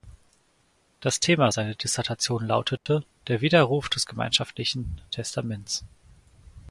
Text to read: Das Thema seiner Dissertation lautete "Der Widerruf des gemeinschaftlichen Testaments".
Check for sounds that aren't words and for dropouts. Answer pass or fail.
fail